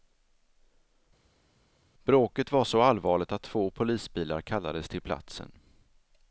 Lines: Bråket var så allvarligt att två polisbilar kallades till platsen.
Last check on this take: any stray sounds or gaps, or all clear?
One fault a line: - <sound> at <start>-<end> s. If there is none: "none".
none